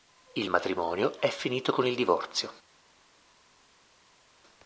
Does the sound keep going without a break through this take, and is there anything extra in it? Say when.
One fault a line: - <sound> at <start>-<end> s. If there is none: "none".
none